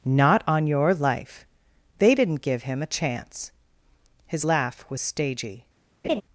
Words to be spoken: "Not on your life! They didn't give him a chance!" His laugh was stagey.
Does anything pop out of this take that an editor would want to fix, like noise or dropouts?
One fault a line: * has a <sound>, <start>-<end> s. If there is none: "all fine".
* has a laugh, 6.0-6.2 s